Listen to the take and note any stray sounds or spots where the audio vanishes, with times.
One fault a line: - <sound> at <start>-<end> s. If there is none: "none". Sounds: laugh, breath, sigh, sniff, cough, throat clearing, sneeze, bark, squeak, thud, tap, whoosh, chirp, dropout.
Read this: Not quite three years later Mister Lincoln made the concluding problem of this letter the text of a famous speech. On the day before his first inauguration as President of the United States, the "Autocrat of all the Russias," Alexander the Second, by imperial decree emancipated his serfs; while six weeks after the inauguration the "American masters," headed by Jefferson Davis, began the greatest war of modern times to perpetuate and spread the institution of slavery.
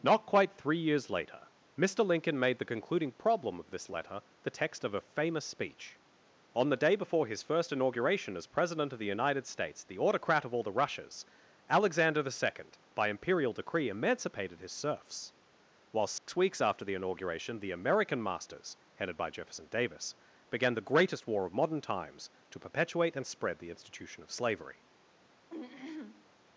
- dropout at 16.2-16.3 s
- throat clearing at 25.5-26.3 s